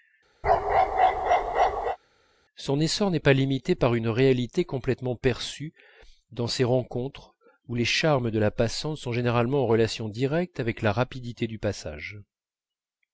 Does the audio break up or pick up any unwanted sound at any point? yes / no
yes